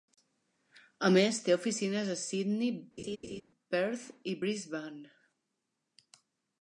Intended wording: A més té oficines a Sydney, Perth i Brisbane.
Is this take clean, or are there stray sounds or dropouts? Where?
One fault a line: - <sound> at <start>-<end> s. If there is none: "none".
- laugh at 3.0-3.4 s